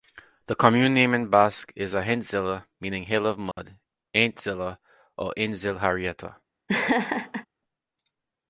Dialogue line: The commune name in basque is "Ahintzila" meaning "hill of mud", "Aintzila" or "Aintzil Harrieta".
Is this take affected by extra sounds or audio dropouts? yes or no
yes